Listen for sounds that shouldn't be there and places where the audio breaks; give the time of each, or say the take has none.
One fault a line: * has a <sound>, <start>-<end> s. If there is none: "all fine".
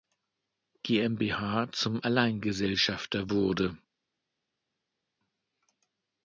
all fine